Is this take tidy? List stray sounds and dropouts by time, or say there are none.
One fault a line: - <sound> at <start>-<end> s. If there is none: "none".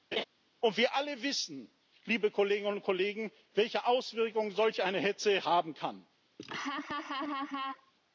- laugh at 0.1-0.2 s
- laugh at 6.4-7.9 s